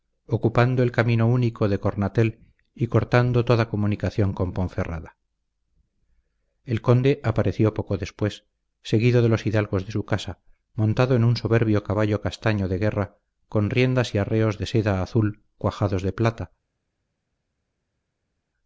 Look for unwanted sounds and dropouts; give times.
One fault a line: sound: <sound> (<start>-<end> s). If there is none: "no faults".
no faults